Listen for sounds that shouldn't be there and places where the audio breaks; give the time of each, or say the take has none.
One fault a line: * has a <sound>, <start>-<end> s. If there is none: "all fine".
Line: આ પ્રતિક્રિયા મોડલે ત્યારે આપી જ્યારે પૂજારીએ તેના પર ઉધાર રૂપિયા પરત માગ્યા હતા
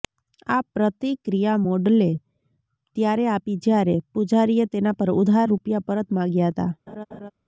* has a laugh, 6.9-7.3 s